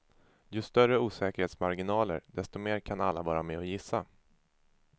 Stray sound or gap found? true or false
false